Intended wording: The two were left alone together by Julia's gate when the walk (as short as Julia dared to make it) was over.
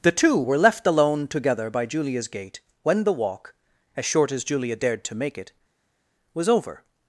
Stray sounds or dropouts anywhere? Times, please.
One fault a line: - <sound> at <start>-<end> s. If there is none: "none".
none